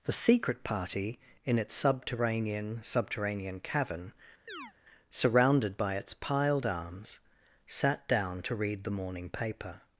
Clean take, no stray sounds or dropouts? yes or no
no